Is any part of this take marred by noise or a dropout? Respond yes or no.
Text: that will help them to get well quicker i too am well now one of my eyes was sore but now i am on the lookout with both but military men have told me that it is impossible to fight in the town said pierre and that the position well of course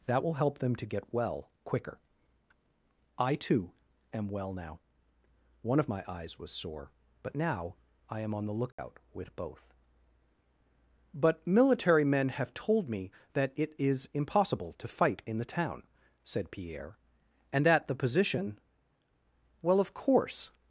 yes